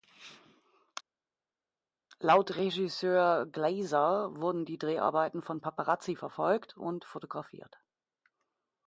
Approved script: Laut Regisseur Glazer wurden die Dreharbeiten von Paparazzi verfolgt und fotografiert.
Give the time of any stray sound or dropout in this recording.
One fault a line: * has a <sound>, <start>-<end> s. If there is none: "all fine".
all fine